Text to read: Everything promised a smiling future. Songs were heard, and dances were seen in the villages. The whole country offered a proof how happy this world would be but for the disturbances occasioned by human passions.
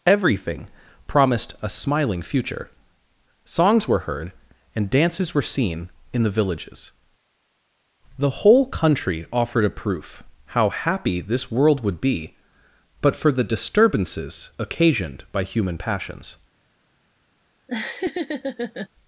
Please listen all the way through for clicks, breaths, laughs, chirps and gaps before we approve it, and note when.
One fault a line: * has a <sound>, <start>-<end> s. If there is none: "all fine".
* has a laugh, 17.7-18.9 s